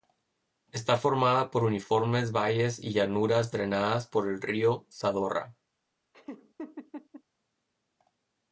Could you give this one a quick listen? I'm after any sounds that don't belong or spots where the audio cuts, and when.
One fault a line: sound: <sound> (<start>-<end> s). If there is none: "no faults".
sound: laugh (6.1-7.2 s)